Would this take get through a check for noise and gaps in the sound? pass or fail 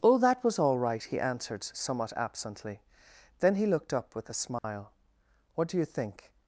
fail